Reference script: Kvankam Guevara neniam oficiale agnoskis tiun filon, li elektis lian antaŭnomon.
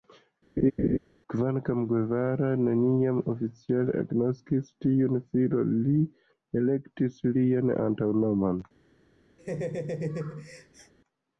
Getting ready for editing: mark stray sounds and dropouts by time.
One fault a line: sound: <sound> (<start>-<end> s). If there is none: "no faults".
sound: laugh (0.6-1.0 s)
sound: laugh (9.4-10.9 s)